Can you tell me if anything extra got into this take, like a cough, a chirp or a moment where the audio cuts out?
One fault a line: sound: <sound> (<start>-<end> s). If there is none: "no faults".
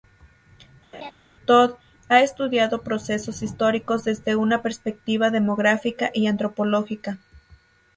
sound: laugh (0.9-1.1 s)